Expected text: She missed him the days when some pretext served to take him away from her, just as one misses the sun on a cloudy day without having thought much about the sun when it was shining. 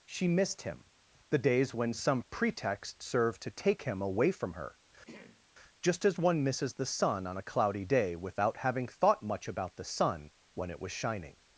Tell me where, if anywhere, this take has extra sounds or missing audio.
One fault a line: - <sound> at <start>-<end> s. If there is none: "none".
- throat clearing at 5.1-5.5 s